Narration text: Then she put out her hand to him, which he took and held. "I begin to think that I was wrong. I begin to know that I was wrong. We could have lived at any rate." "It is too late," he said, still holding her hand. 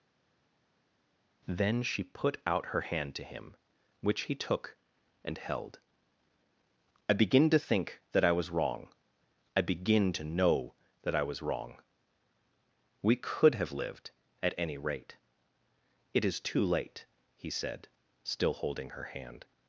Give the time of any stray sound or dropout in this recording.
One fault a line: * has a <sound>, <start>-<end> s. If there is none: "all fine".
all fine